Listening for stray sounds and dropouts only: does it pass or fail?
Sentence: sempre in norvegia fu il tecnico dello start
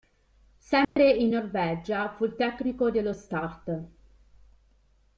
fail